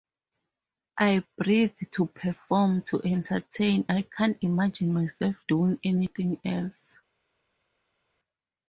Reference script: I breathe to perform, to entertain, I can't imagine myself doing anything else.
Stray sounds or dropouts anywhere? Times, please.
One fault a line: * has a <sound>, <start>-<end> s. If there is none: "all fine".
all fine